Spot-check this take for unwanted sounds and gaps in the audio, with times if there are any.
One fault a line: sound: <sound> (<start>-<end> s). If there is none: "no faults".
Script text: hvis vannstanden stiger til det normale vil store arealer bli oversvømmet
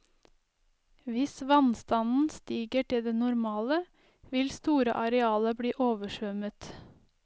no faults